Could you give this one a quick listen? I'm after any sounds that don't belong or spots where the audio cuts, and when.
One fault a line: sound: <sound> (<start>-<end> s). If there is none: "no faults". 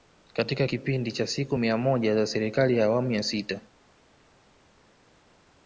no faults